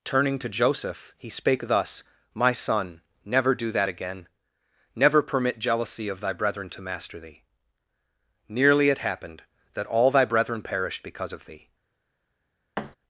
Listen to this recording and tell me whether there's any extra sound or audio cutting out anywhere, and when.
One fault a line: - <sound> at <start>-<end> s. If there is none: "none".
- thud at 12.8-13.0 s